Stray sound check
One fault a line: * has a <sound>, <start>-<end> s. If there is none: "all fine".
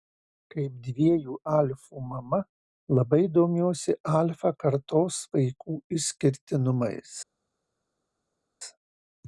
all fine